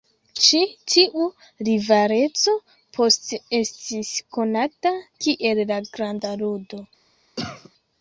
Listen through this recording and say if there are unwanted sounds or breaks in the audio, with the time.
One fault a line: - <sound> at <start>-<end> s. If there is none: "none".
- cough at 7.4-7.7 s